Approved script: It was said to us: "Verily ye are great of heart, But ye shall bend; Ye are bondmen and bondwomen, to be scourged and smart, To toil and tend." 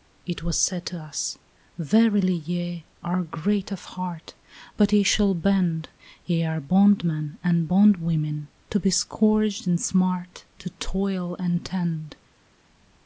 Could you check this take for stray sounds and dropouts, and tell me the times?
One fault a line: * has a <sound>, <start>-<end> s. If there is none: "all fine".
all fine